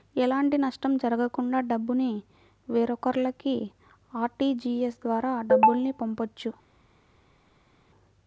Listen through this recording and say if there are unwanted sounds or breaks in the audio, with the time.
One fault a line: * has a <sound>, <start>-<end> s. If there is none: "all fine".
all fine